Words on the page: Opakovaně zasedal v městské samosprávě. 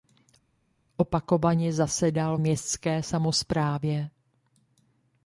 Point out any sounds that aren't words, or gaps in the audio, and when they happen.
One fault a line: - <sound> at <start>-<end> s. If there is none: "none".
none